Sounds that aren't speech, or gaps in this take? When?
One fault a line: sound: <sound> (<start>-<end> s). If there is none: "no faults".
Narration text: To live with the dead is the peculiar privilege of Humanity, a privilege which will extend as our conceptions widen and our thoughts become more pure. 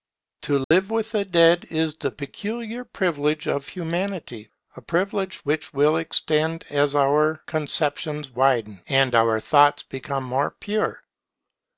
sound: dropout (0.6-0.7 s)